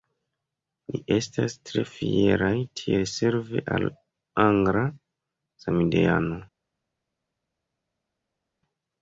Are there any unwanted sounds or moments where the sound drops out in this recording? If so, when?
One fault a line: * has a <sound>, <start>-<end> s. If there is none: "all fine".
all fine